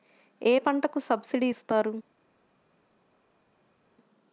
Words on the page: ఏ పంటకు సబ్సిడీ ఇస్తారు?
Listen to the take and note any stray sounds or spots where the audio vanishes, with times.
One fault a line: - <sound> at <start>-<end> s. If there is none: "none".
none